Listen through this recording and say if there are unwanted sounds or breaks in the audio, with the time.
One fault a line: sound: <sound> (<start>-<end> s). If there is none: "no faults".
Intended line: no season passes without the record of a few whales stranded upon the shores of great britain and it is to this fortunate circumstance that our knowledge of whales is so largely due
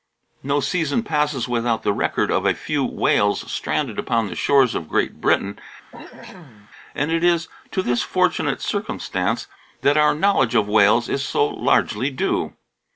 sound: cough (5.9-6.7 s)